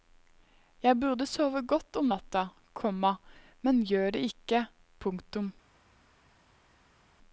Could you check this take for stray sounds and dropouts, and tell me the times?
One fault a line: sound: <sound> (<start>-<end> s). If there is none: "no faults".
no faults